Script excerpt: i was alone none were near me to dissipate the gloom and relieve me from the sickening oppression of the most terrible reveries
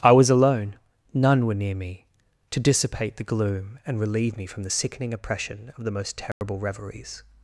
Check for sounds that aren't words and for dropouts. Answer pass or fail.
fail